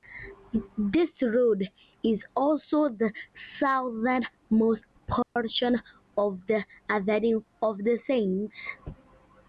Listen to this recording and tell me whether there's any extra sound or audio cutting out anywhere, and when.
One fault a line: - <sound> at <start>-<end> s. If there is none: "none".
- dropout at 5.2-5.4 s